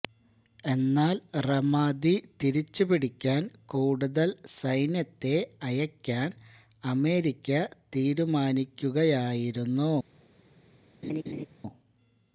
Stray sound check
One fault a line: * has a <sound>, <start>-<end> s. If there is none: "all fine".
* has a laugh, 11.0-11.5 s